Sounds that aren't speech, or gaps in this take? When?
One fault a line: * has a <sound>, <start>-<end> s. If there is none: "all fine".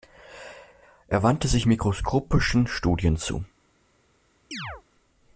* has a chirp, 4.5-4.8 s